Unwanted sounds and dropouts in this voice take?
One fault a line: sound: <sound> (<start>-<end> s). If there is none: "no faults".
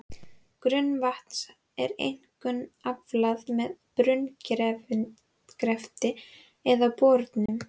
sound: dropout (7.5-7.5 s)